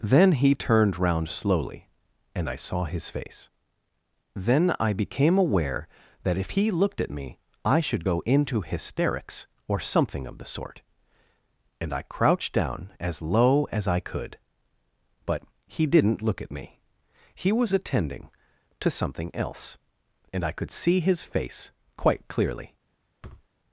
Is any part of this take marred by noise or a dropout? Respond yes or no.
yes